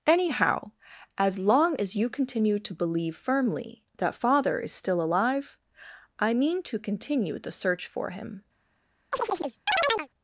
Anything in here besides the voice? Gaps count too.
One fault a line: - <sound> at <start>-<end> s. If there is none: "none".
- chirp at 9.1-10.1 s